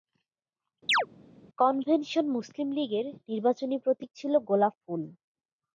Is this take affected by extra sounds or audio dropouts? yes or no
yes